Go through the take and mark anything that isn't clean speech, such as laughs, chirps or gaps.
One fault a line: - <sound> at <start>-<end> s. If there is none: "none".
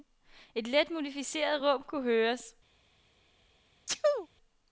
- sneeze at 3.9-4.3 s